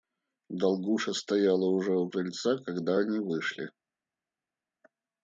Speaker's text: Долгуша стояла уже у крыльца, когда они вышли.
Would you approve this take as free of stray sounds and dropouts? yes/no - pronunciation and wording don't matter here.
yes